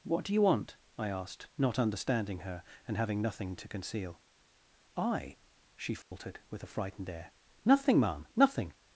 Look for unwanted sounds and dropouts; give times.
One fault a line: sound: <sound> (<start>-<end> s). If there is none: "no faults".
sound: dropout (6.0-6.1 s)